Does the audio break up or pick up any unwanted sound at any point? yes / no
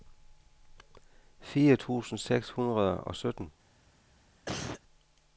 yes